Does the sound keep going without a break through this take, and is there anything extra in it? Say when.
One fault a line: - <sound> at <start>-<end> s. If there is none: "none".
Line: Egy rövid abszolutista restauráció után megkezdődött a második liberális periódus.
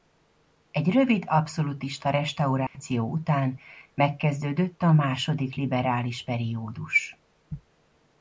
- dropout at 2.7-2.8 s